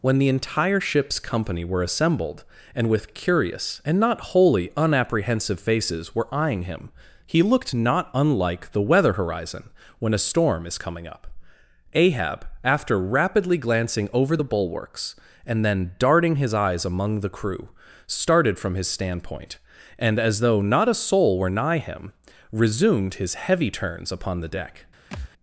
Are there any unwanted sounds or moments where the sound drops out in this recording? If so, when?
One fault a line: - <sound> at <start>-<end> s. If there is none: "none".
- thud at 25.1-25.3 s